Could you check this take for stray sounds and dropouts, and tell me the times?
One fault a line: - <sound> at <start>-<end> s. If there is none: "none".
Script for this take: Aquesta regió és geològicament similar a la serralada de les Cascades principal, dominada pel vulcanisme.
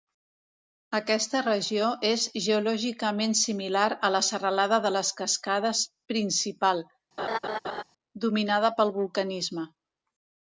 - laugh at 7.2-7.8 s